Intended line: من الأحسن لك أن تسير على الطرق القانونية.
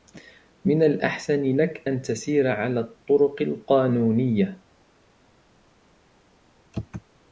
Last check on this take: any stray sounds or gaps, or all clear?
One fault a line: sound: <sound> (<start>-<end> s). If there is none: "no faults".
no faults